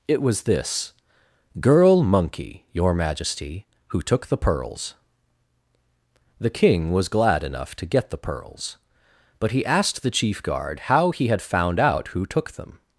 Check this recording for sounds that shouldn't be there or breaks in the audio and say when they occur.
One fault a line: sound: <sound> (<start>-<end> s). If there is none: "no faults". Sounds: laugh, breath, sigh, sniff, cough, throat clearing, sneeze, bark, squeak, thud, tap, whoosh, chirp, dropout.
no faults